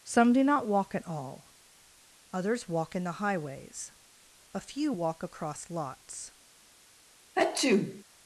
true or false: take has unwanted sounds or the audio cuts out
true